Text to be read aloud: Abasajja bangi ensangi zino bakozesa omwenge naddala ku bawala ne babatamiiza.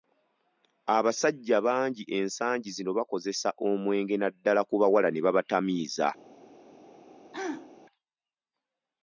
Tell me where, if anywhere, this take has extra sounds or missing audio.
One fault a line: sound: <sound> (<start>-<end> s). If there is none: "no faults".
sound: throat clearing (7.3-7.7 s)